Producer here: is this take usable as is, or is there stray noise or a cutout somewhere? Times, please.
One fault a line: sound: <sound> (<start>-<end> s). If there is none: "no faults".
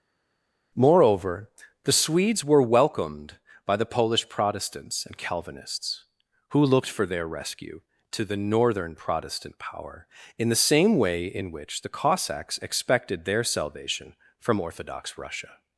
no faults